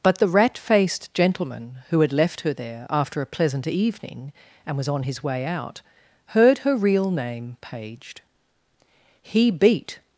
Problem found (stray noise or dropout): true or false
false